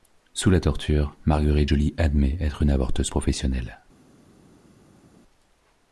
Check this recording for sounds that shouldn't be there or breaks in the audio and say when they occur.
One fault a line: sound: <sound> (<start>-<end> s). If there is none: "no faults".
no faults